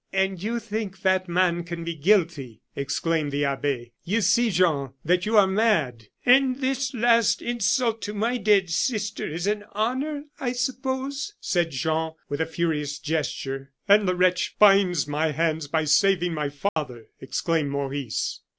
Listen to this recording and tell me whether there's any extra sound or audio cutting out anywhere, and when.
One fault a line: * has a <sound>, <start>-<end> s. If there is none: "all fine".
* has a dropout, 16.7-16.8 s